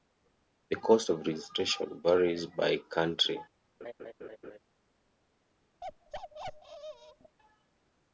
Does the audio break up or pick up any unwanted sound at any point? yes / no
yes